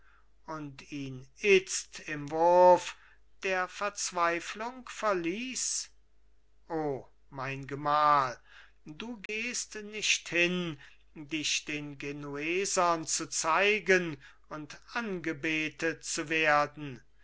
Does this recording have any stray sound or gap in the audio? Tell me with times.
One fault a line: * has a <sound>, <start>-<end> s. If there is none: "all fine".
* has a dropout, 9.3-9.3 s